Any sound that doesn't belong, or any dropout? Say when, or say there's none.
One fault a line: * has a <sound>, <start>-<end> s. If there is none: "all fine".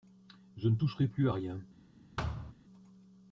* has a thud, 2.2-2.5 s